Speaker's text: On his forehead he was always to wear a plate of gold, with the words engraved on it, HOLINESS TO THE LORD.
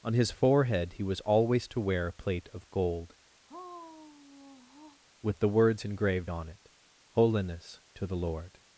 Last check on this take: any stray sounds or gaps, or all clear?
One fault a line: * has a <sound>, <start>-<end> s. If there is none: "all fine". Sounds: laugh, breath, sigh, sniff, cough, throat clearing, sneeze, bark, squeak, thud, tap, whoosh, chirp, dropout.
* has a sigh, 3.5-5.0 s